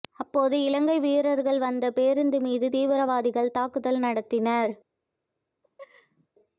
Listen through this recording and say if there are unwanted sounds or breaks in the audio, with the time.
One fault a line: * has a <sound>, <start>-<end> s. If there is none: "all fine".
* has a laugh, 5.6-6.3 s